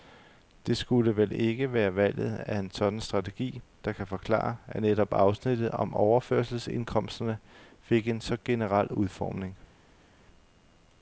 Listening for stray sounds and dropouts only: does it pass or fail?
pass